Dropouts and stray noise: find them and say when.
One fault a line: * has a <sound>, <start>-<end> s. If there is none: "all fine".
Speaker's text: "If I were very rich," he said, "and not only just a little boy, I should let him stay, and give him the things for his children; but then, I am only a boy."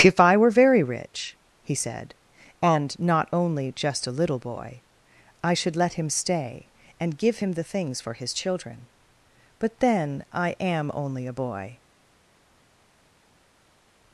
all fine